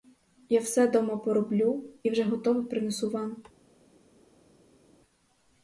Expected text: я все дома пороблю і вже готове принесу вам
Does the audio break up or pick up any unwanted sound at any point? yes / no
no